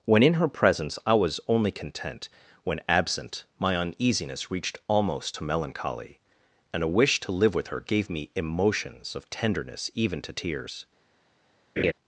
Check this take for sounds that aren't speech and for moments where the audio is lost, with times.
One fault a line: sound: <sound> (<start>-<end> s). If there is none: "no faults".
sound: laugh (11.8-11.9 s)